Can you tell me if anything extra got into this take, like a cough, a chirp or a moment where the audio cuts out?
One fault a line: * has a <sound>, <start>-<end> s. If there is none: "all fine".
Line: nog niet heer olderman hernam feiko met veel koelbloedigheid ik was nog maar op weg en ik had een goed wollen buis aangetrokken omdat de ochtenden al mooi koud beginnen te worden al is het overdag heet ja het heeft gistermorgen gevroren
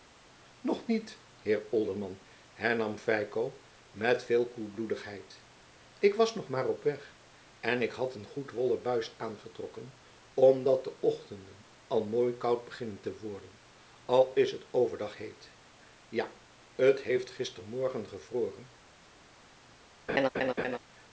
* has a laugh, 20.1-20.8 s